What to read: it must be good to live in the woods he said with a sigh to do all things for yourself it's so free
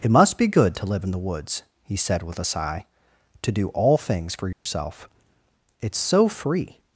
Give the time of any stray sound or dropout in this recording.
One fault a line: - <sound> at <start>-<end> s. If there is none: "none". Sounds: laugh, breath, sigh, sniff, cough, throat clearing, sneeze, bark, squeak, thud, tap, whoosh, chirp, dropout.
- dropout at 4.5-4.7 s